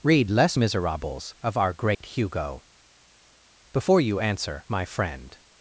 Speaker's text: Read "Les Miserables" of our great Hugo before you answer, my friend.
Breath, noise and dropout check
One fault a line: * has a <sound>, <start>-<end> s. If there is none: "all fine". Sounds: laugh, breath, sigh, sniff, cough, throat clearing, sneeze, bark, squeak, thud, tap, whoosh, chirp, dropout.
* has a dropout, 1.9-2.0 s